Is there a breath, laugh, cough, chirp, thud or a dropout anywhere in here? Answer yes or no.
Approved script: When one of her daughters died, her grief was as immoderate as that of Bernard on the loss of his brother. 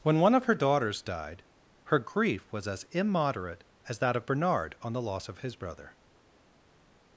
no